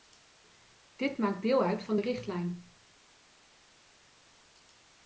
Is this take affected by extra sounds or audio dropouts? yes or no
no